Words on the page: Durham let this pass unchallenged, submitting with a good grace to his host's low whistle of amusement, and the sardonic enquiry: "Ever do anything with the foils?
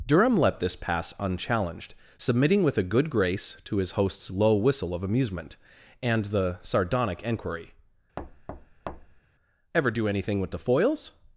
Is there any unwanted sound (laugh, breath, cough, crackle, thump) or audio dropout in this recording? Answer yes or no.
yes